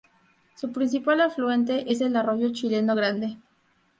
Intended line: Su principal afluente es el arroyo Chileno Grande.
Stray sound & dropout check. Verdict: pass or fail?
pass